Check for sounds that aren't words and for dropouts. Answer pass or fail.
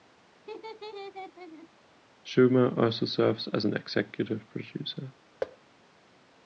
fail